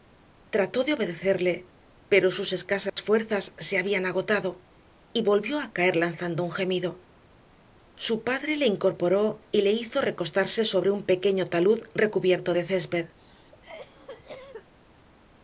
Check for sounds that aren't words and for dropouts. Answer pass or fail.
fail